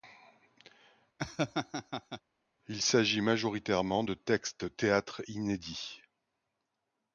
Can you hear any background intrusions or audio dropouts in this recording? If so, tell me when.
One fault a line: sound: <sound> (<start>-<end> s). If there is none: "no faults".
sound: laugh (1.2-2.2 s)